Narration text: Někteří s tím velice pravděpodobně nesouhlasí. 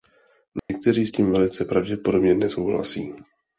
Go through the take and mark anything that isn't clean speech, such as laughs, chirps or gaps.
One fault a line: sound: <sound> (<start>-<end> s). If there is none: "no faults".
sound: dropout (0.6-0.7 s)